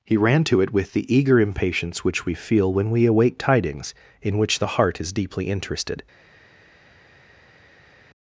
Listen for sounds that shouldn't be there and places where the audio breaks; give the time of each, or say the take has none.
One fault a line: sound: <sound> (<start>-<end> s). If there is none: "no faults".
no faults